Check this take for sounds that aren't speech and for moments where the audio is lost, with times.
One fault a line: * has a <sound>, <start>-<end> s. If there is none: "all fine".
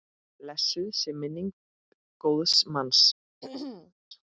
* has a throat clearing, 3.4-3.9 s